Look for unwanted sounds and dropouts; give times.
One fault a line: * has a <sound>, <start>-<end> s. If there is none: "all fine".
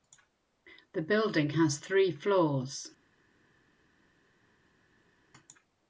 all fine